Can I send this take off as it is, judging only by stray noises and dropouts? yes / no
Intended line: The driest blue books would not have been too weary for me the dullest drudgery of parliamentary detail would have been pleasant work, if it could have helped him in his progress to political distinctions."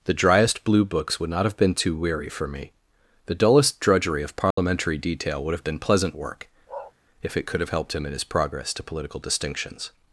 no